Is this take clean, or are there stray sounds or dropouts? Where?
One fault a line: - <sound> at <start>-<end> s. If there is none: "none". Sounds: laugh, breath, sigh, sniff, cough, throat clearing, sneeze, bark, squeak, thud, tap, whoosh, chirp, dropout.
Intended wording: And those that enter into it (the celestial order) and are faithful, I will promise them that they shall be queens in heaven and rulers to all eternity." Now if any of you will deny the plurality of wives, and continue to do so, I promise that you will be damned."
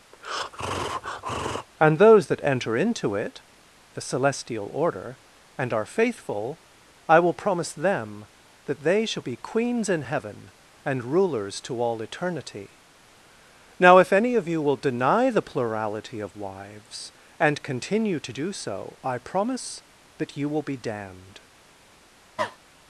- breath at 0.1-1.7 s
- cough at 22.4-22.6 s